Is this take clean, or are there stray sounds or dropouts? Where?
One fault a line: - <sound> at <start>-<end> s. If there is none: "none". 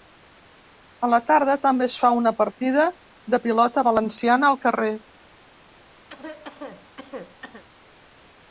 - cough at 6.1-7.6 s